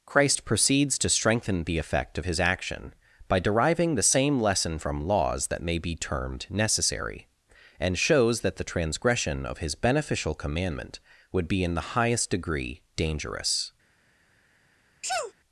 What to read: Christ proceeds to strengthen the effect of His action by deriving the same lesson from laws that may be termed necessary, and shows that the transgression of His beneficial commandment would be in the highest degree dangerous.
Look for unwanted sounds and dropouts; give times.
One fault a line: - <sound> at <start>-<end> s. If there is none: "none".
- sneeze at 15.0-15.3 s